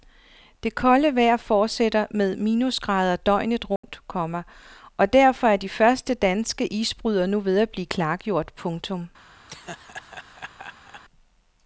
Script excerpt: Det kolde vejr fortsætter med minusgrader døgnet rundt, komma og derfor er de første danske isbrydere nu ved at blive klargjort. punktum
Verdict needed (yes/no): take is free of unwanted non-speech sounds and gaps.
no